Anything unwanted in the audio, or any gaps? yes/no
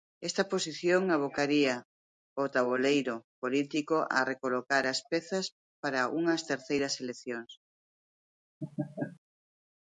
yes